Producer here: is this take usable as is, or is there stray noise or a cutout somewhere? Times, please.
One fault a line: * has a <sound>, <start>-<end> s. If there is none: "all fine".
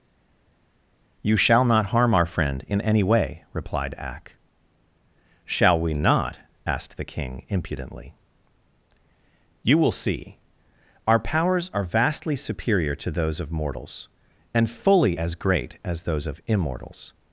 all fine